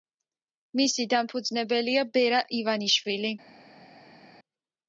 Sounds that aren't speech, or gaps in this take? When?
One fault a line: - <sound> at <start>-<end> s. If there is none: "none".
none